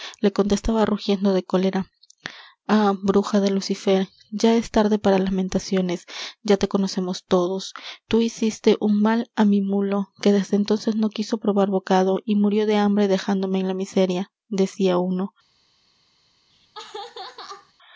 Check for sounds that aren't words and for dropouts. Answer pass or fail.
fail